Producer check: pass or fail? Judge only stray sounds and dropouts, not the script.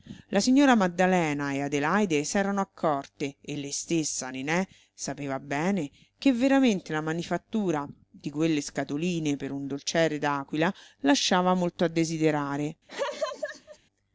fail